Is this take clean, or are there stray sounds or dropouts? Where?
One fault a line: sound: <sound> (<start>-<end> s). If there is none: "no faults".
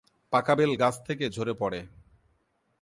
no faults